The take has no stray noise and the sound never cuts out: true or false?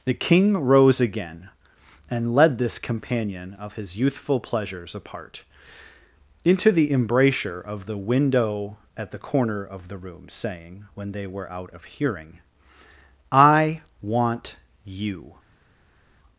true